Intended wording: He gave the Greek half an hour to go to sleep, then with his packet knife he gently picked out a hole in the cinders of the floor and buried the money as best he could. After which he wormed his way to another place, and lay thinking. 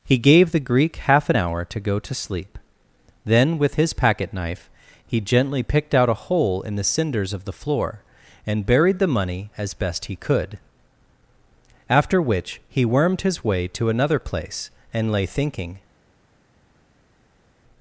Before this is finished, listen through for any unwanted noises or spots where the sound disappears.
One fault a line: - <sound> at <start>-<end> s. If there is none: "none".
none